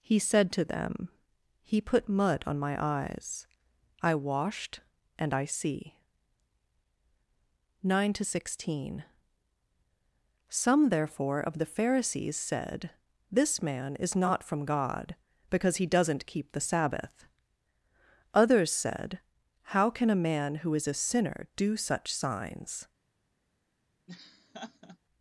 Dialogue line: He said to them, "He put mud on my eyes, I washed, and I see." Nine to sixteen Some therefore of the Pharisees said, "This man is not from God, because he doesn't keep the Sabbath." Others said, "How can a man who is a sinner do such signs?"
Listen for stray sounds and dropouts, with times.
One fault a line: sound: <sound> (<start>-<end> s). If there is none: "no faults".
sound: laugh (24.1-25.0 s)